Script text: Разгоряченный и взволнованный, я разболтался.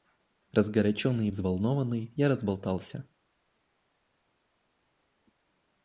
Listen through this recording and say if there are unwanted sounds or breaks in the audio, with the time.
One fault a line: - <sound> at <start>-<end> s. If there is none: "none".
none